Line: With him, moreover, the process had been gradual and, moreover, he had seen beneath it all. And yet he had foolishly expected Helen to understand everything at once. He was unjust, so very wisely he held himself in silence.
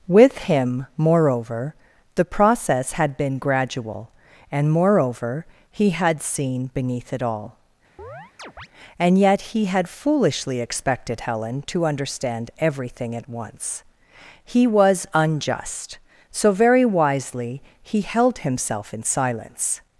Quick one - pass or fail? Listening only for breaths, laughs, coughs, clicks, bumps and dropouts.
fail